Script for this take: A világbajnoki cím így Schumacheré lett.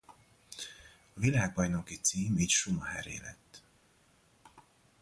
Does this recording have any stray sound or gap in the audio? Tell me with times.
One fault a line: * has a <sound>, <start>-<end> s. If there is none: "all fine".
all fine